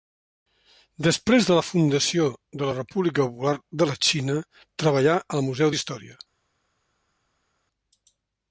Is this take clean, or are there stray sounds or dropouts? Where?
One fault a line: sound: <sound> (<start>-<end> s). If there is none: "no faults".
no faults